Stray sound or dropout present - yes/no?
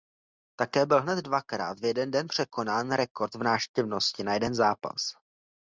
no